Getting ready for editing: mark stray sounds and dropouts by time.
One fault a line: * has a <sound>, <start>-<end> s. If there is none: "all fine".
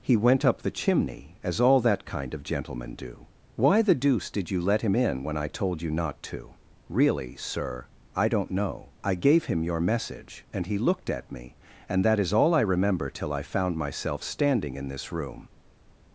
all fine